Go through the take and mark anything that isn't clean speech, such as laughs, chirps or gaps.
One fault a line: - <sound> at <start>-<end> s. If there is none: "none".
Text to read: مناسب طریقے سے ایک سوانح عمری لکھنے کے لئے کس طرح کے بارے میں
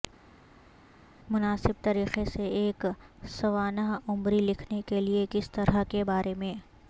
none